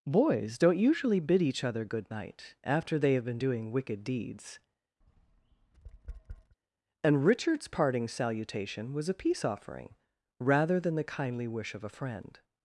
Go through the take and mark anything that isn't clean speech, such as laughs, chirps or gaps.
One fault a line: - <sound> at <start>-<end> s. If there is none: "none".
- tap at 5.0-6.6 s